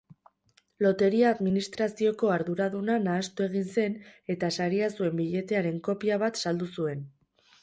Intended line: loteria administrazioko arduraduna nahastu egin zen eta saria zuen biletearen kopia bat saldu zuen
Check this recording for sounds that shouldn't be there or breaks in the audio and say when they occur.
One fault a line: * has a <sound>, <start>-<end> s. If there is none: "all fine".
all fine